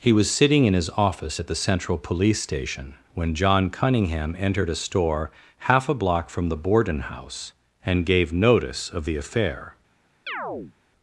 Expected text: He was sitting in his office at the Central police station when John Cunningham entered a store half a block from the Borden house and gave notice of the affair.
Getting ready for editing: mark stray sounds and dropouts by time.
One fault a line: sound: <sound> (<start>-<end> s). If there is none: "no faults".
sound: chirp (10.3-10.7 s)